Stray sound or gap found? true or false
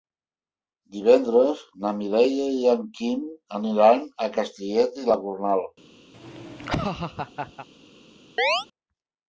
true